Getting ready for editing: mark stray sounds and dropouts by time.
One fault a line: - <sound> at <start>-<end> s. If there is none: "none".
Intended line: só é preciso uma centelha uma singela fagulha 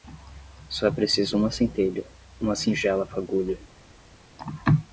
none